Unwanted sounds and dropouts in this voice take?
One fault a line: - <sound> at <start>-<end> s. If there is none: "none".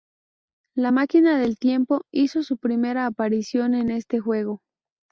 none